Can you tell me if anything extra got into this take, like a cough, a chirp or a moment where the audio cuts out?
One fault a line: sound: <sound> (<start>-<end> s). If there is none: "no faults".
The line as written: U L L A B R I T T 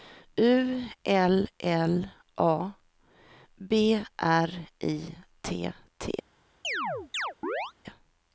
sound: chirp (6.6-7.7 s)